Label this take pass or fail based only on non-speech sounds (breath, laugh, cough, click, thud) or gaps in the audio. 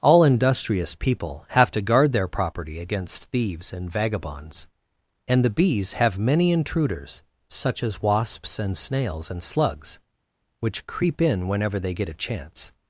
pass